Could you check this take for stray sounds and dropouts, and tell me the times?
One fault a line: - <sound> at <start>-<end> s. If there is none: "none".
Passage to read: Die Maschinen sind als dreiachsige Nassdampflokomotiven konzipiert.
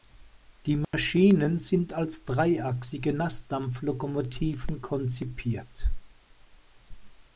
- dropout at 0.8-0.9 s